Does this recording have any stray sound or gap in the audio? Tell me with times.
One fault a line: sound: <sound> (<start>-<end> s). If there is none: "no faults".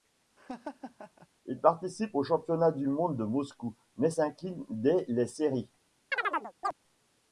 sound: laugh (0.4-1.3 s)
sound: chirp (6.1-6.7 s)